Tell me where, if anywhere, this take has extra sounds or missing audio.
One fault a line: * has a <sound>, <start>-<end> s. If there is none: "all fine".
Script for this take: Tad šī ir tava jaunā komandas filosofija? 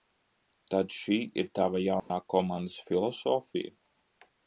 * has a dropout, 2.0-2.1 s